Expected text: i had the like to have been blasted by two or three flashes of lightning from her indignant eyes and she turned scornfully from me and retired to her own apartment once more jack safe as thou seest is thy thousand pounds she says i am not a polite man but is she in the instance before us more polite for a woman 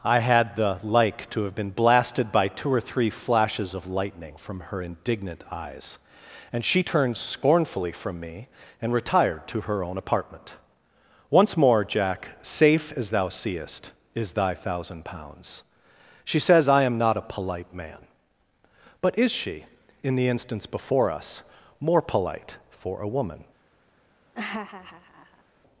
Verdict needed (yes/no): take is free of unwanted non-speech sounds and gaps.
no